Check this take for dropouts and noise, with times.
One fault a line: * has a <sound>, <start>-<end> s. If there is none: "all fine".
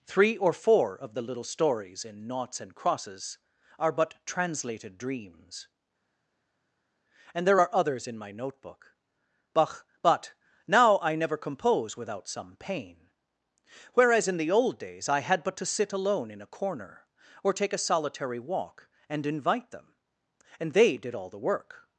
all fine